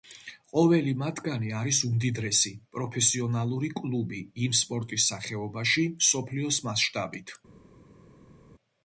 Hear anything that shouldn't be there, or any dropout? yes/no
no